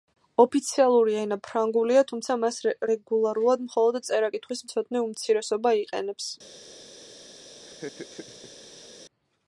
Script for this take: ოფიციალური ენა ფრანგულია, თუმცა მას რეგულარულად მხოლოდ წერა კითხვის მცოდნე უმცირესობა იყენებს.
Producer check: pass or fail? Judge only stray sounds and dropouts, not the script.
fail